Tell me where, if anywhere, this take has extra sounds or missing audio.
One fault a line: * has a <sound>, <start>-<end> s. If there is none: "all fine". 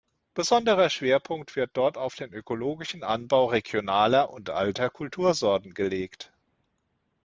all fine